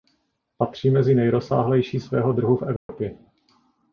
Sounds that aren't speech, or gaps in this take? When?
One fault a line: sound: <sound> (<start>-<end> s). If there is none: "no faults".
sound: dropout (2.8-2.9 s)